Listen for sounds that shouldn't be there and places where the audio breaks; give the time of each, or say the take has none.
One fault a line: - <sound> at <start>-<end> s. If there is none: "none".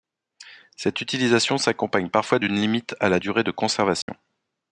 - dropout at 4.0-4.1 s